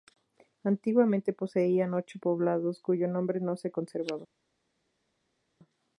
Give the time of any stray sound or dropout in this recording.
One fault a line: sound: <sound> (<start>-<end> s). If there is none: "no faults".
no faults